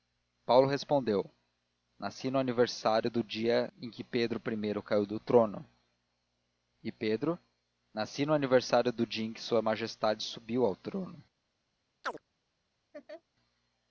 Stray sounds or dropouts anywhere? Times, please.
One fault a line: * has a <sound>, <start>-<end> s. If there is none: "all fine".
* has a chirp, 12.0-12.2 s
* has a laugh, 12.9-13.2 s